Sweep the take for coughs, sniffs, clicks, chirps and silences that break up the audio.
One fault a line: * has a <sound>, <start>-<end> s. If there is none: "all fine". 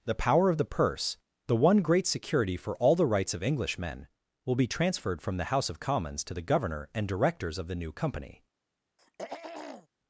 * has a throat clearing, 9.0-9.9 s